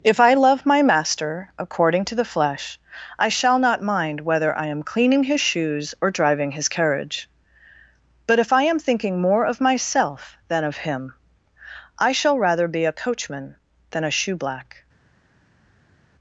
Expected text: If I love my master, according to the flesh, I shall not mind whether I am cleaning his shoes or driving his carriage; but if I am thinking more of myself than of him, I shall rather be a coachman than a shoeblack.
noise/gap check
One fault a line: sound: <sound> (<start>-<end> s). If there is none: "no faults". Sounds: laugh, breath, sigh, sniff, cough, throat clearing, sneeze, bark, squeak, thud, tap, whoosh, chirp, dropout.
no faults